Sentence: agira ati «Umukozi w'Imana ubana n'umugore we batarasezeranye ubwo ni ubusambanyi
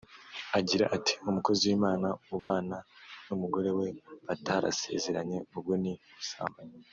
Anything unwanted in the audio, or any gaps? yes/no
yes